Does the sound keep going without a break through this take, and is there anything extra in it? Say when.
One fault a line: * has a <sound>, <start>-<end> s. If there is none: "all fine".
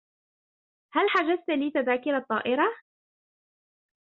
all fine